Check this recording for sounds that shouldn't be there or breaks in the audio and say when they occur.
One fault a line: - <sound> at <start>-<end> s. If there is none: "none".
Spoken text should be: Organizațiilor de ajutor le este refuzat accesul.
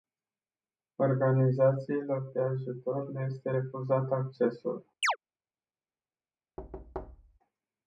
- chirp at 5.0-5.2 s
- thud at 6.6-7.4 s